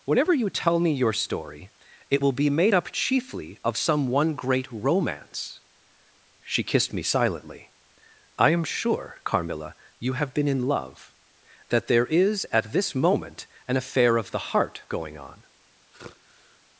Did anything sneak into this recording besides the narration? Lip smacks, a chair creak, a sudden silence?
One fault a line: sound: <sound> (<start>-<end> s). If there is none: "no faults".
sound: sigh (15.9-16.6 s)